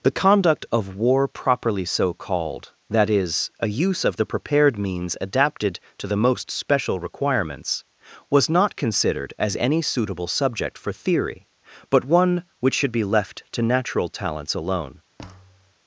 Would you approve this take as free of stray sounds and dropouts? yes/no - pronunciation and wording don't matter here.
no